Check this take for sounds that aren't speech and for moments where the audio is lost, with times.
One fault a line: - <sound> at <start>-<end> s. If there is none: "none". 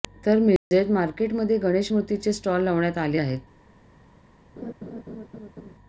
- dropout at 0.6-0.7 s
- laugh at 4.6-5.7 s